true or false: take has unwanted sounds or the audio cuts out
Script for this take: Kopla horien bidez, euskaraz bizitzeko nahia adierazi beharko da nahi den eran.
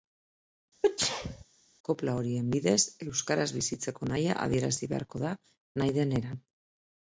true